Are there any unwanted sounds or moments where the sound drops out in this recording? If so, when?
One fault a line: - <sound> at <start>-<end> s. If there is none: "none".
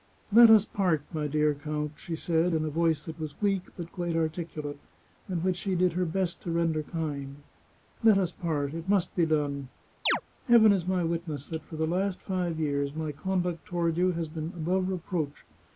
- chirp at 10.1-10.2 s